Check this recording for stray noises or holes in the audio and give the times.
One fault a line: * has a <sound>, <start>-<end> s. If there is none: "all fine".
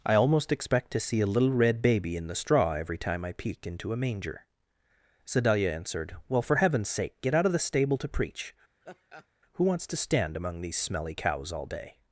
* has a laugh, 8.8-9.3 s